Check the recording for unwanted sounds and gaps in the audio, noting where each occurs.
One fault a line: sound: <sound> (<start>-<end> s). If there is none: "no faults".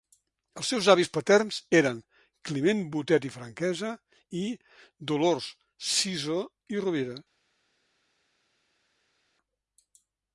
no faults